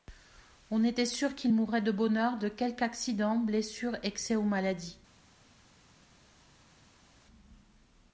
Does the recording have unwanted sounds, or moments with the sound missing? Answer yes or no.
no